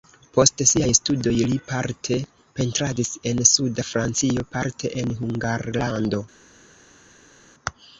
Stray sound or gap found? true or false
false